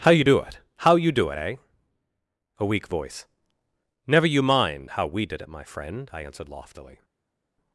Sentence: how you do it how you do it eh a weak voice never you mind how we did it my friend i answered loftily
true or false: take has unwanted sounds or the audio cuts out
false